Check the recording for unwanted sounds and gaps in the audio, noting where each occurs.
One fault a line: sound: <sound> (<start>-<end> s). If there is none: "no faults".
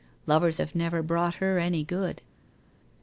no faults